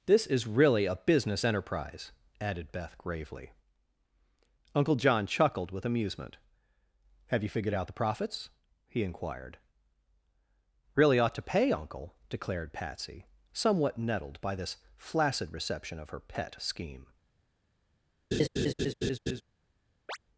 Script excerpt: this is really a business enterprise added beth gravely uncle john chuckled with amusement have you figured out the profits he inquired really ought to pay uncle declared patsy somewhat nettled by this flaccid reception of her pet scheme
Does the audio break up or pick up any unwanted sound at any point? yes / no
yes